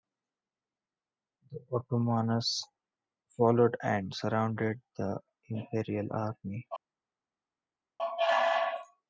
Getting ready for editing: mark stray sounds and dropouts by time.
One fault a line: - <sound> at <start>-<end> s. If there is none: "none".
none